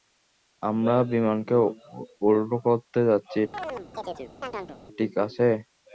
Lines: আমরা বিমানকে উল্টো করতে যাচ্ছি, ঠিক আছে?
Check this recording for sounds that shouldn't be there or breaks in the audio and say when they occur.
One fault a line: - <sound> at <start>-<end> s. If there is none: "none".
- chirp at 3.5-4.8 s